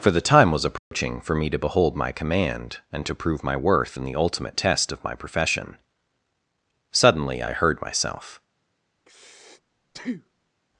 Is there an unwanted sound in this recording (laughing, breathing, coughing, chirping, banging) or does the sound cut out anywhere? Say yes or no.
yes